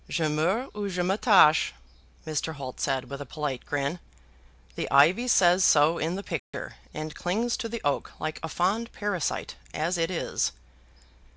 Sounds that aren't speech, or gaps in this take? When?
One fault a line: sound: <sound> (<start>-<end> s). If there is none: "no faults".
sound: dropout (6.4-6.5 s)